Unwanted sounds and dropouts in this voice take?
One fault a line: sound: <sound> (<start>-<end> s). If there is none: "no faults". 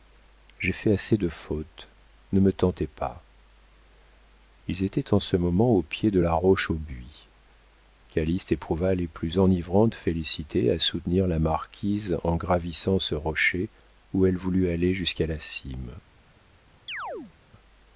sound: chirp (16.9-17.3 s)